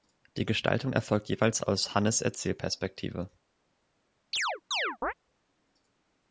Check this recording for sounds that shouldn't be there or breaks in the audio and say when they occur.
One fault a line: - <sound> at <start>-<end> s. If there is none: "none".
- chirp at 4.3-5.1 s